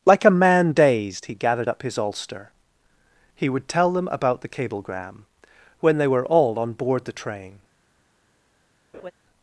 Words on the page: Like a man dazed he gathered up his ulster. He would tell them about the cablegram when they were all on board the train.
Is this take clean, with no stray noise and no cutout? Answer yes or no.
no